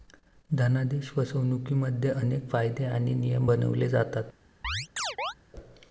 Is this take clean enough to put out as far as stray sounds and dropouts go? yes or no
no